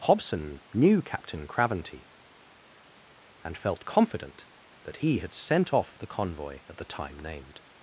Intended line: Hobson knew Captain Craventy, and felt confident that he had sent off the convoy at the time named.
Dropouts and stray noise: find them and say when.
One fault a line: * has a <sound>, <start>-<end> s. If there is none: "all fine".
all fine